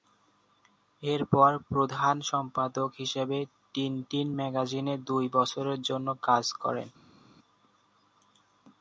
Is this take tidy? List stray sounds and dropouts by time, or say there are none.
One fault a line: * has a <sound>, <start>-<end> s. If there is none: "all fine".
all fine